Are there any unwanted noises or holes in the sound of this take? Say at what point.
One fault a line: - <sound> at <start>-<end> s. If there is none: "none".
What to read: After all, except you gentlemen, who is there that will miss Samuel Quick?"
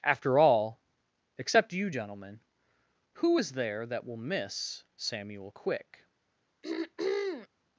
- throat clearing at 6.6-7.5 s